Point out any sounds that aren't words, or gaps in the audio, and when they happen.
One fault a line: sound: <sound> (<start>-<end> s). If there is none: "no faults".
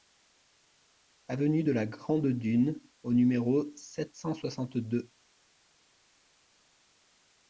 no faults